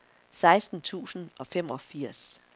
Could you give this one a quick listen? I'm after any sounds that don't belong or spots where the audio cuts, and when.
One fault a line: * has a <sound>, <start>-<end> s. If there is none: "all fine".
all fine